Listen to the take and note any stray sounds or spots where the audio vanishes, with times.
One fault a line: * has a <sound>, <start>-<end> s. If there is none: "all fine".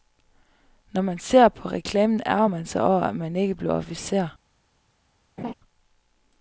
* has a laugh, 5.4-5.5 s